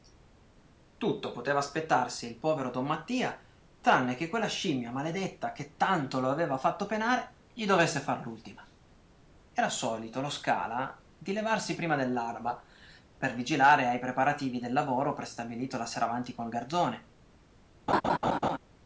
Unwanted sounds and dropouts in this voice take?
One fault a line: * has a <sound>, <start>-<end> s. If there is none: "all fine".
* has a laugh, 17.9-18.6 s